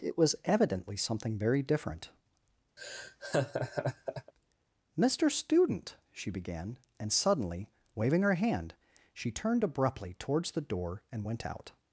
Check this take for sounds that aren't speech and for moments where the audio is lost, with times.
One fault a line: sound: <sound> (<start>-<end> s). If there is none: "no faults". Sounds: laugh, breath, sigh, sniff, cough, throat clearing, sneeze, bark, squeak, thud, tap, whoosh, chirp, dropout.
sound: laugh (2.8-4.3 s)